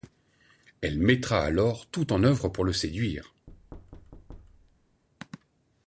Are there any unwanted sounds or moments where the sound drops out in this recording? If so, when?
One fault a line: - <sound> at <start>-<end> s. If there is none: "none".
- thud at 3.5-5.0 s